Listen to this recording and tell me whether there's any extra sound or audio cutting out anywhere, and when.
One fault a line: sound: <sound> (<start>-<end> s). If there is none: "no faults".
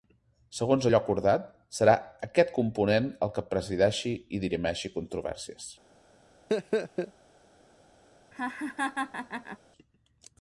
sound: laugh (6.5-7.1 s)
sound: laugh (8.3-9.6 s)